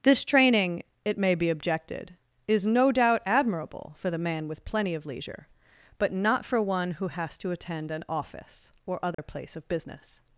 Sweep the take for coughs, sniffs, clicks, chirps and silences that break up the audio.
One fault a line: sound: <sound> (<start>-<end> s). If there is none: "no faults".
sound: dropout (9.1-9.2 s)